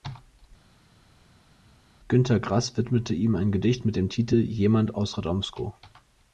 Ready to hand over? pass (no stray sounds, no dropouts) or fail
pass